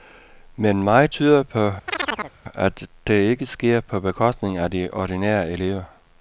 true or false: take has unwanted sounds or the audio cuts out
true